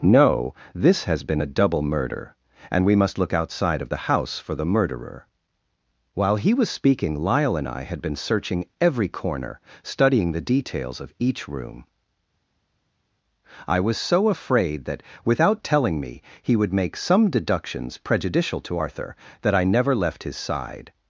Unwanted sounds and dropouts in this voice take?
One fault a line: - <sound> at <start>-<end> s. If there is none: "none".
none